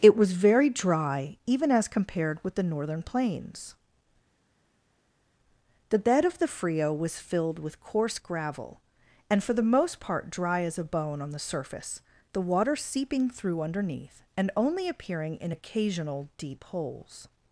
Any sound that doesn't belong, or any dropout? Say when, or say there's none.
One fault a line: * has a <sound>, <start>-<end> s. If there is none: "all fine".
all fine